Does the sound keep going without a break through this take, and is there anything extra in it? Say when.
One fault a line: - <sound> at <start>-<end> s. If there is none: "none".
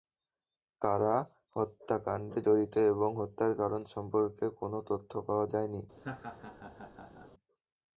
- laugh at 6.0-7.3 s